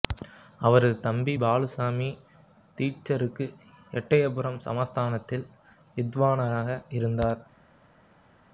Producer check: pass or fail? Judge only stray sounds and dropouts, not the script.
pass